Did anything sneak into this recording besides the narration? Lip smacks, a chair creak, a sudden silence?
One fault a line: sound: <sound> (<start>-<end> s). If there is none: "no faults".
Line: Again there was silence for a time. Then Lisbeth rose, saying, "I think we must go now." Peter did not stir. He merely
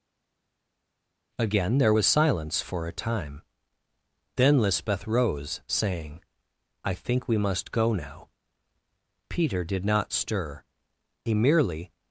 no faults